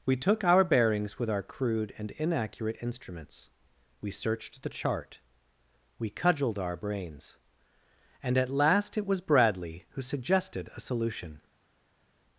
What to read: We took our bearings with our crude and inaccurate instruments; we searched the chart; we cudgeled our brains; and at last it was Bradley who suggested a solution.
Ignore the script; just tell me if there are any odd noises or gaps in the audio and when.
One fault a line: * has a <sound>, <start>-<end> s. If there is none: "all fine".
all fine